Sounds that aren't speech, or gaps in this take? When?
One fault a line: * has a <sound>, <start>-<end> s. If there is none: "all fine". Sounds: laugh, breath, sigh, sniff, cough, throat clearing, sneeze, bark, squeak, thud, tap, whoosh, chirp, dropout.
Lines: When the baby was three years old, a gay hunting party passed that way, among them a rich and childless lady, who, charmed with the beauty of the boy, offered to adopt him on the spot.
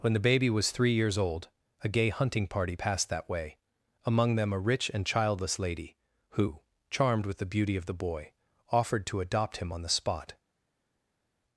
all fine